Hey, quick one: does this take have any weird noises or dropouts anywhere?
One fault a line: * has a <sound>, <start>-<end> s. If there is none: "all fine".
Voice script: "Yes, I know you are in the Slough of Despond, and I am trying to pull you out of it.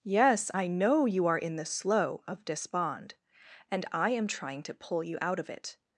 all fine